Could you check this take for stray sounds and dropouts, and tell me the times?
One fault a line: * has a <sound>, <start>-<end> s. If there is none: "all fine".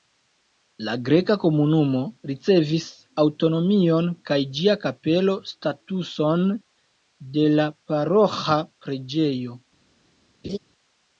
* has a laugh, 10.4-10.6 s